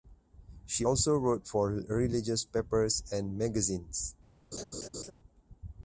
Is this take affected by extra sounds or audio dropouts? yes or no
yes